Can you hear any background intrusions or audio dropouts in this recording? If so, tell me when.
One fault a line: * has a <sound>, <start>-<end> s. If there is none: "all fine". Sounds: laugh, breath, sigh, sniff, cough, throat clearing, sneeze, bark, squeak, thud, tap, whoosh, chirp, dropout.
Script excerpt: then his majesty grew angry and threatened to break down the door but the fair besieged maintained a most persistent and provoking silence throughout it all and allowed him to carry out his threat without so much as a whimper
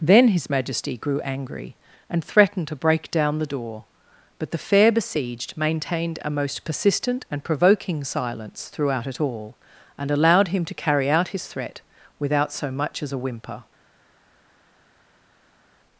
all fine